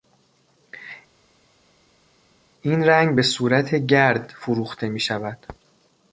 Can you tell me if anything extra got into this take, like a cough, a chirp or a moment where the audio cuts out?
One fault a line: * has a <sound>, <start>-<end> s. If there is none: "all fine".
all fine